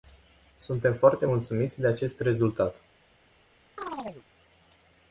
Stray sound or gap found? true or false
true